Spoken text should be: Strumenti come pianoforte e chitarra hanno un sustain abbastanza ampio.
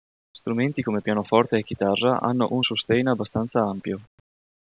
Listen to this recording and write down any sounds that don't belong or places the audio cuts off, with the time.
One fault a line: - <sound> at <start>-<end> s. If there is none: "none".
none